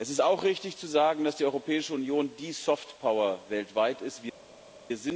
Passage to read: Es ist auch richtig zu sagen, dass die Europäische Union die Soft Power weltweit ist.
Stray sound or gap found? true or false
false